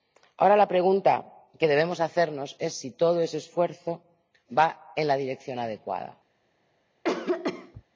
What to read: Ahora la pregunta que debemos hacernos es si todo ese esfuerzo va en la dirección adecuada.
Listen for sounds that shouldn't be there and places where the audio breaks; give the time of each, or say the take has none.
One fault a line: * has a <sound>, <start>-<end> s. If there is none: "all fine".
* has a cough, 7.0-7.8 s